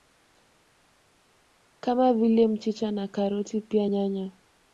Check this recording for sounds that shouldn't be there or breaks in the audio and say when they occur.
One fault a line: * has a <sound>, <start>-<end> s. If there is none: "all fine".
all fine